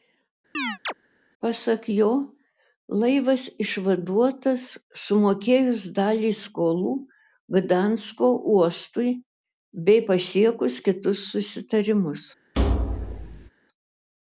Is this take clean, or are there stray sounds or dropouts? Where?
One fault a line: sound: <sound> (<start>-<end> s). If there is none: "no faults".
sound: chirp (0.5-0.9 s)
sound: thud (12.5-13.5 s)